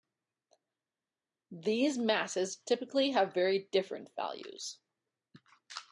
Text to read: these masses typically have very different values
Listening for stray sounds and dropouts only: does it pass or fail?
pass